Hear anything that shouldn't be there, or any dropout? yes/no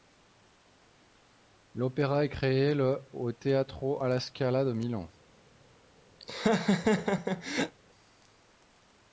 yes